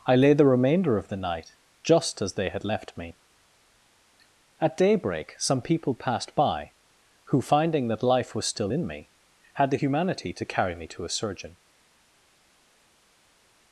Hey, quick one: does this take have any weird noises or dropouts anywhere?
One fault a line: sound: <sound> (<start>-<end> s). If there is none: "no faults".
no faults